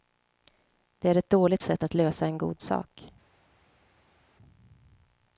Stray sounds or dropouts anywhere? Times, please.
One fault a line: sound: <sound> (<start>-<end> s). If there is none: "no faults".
no faults